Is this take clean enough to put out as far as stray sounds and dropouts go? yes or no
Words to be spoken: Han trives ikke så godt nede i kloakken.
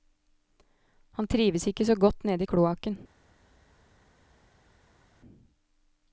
yes